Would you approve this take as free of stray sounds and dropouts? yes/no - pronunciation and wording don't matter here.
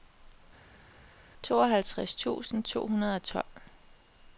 yes